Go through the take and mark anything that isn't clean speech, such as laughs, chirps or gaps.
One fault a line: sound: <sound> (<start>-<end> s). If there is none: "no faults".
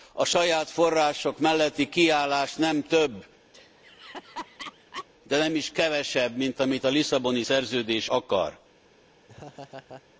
sound: laugh (3.5-5.1 s)
sound: laugh (9.3-10.0 s)